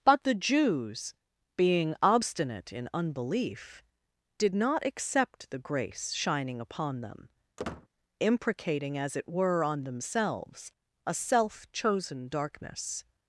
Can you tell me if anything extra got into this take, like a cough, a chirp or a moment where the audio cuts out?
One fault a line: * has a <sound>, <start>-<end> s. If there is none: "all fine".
* has a squeak, 7.6-7.9 s